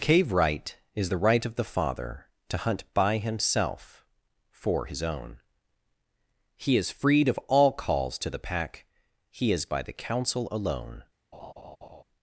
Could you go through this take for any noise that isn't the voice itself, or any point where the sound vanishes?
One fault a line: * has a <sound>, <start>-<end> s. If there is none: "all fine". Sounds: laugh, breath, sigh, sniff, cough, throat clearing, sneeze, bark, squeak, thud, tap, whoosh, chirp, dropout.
* has a laugh, 11.3-12.0 s